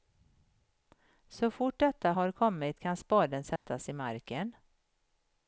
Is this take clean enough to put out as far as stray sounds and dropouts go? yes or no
no